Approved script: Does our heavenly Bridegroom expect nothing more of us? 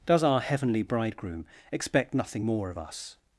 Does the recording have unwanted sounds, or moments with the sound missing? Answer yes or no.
no